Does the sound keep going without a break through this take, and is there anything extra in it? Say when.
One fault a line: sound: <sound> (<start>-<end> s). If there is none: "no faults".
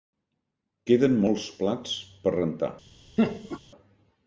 sound: laugh (3.2-3.6 s)